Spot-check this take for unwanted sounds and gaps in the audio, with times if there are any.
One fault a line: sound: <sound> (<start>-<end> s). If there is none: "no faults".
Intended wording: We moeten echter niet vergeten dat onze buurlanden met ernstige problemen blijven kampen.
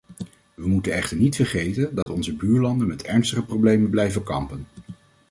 sound: dropout (2.0-2.1 s)